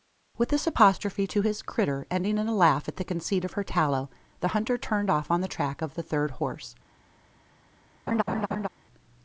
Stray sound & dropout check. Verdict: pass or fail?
fail